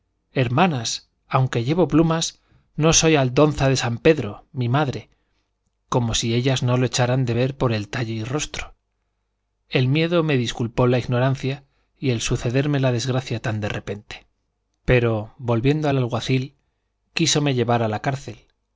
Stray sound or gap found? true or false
false